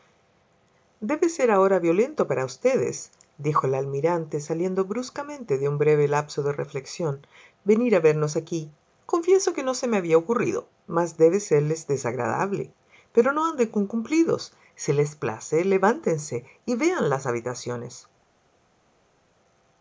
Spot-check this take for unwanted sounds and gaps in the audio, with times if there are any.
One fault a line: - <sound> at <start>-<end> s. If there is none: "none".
none